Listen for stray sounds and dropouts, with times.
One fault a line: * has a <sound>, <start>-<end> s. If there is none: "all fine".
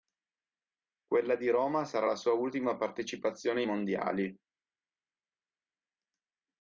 all fine